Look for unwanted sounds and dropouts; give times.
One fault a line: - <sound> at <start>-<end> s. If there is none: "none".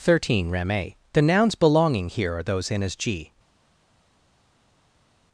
none